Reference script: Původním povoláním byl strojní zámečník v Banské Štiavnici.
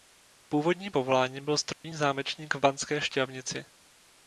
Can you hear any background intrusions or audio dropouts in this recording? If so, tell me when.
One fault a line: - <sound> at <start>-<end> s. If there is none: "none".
- dropout at 1.7-1.8 s